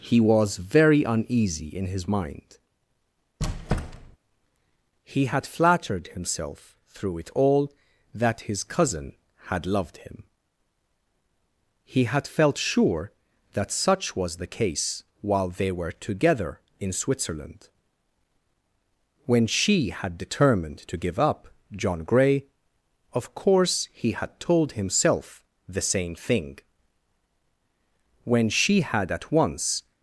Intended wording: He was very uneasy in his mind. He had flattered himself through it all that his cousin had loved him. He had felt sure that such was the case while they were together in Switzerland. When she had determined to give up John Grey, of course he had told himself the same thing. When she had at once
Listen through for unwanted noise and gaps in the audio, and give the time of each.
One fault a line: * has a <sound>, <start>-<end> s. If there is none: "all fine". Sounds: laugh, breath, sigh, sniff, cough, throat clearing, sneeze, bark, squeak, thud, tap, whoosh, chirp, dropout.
* has a squeak, 3.4-4.2 s